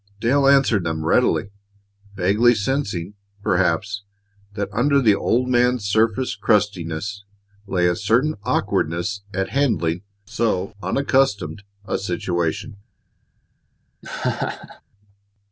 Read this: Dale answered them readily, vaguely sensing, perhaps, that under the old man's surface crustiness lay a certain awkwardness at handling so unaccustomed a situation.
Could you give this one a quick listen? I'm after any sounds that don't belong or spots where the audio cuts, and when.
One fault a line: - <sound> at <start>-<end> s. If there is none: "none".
- laugh at 14.0-14.8 s